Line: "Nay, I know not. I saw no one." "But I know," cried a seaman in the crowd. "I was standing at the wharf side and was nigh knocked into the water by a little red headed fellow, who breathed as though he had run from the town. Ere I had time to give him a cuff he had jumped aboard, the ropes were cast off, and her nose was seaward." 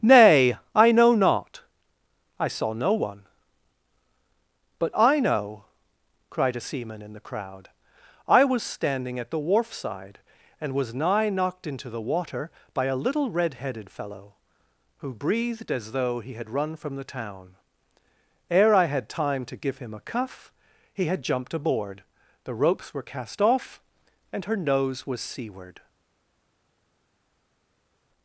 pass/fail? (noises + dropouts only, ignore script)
pass